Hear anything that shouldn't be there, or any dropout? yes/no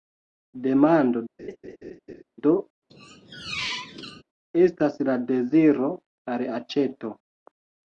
yes